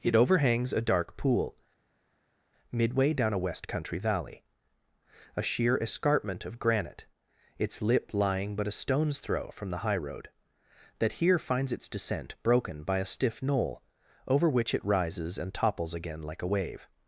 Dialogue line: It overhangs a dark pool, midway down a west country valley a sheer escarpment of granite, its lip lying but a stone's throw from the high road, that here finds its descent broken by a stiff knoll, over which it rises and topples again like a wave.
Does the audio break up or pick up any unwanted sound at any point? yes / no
no